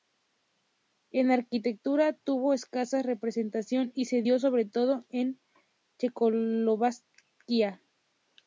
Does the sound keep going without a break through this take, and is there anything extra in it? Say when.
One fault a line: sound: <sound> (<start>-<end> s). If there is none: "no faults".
no faults